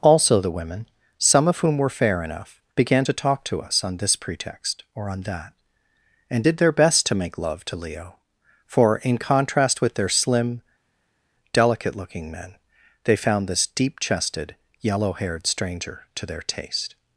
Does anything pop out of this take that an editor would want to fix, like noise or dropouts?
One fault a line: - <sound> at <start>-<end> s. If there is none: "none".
none